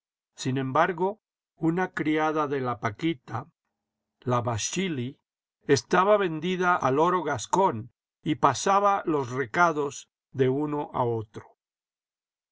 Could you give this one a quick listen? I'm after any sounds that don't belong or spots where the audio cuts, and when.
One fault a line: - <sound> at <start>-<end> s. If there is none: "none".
none